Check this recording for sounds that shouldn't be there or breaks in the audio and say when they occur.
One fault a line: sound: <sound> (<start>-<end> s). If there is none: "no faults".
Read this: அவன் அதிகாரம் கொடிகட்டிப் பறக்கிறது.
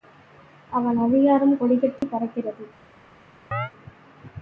sound: dropout (2.0-2.0 s)
sound: chirp (3.5-3.7 s)